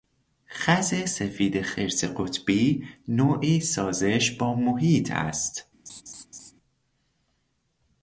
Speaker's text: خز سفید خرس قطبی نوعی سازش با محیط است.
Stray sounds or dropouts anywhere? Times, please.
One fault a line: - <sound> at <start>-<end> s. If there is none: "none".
- laugh at 5.9-6.5 s